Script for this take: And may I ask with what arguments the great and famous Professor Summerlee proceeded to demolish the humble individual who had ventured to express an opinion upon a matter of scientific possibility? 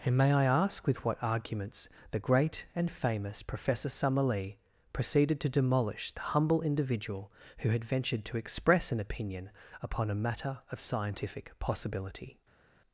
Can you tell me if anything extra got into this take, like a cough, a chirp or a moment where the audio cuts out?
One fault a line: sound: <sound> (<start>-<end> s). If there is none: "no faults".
no faults